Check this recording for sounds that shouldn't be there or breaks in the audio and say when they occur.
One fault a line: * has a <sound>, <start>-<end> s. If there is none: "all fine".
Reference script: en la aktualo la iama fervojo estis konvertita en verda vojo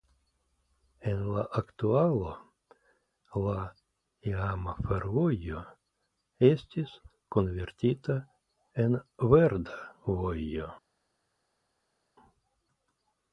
all fine